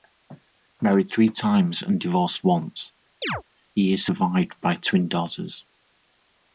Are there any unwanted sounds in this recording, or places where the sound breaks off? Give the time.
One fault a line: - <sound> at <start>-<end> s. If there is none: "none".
- chirp at 3.2-3.4 s